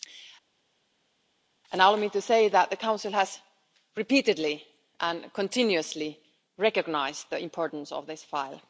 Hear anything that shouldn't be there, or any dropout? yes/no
no